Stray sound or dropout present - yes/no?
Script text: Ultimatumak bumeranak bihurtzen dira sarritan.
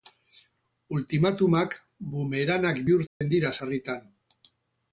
yes